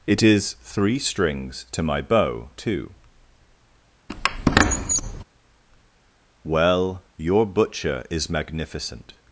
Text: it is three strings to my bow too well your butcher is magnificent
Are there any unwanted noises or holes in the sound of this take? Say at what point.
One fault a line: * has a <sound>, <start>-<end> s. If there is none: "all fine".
* has a squeak, 4.1-5.2 s